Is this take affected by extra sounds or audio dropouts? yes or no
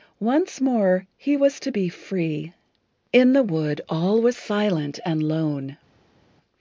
no